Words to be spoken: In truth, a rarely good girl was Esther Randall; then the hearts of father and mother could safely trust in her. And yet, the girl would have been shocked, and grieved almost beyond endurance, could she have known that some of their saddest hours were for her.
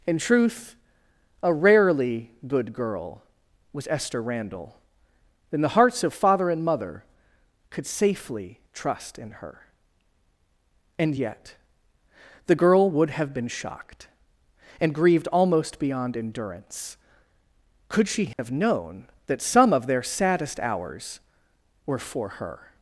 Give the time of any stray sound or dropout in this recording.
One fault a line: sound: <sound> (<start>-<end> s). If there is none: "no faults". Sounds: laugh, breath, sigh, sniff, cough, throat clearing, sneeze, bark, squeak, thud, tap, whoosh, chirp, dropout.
sound: dropout (18.3-18.4 s)